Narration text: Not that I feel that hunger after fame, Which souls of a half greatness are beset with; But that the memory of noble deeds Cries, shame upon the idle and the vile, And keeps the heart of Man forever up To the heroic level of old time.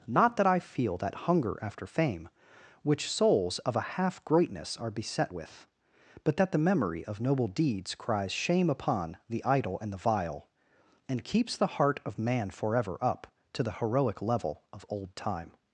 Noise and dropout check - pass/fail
pass